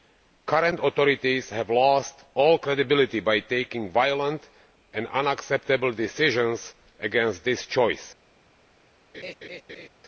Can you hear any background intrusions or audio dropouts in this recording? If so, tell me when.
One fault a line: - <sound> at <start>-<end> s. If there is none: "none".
- laugh at 9.1-9.9 s